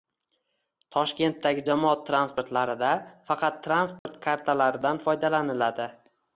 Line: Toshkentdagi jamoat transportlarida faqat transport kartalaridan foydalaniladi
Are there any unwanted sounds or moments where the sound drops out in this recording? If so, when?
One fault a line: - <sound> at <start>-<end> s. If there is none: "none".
- dropout at 4.0-4.1 s